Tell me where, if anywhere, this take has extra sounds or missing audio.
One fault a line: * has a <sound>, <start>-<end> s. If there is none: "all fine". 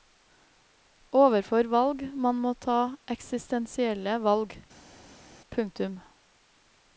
all fine